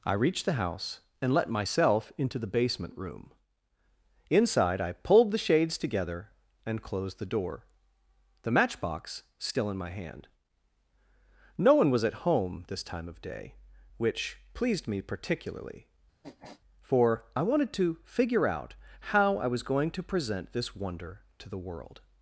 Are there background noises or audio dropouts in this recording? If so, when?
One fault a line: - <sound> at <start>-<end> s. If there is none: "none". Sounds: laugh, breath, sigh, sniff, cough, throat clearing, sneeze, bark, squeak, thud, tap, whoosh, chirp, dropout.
- sniff at 16.2-16.6 s